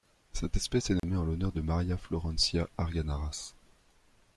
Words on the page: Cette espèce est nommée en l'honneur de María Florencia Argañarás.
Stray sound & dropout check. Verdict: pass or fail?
fail